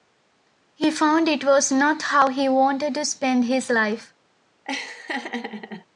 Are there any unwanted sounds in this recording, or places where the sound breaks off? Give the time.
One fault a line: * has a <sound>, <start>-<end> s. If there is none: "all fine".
* has a laugh, 4.6-5.9 s